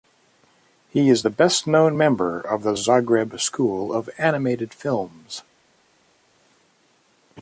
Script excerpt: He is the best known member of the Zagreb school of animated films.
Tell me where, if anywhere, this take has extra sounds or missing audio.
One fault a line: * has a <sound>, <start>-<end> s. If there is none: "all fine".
all fine